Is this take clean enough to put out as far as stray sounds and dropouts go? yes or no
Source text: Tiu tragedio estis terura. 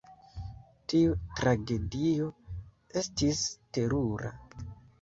yes